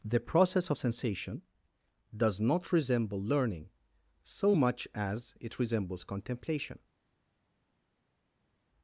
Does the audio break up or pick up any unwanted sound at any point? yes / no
no